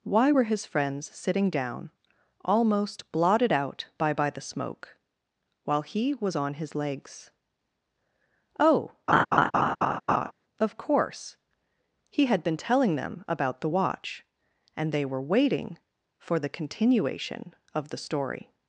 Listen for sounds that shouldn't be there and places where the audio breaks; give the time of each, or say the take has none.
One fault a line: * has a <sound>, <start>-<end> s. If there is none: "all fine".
* has a laugh, 9.1-10.3 s